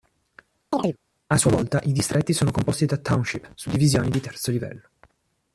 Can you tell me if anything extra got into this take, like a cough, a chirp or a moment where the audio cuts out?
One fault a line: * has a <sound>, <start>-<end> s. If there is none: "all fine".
* has a chirp, 0.7-1.0 s